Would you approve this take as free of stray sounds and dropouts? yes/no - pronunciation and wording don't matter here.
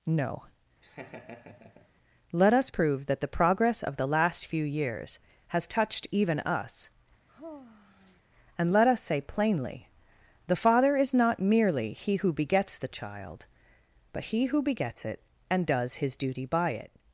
no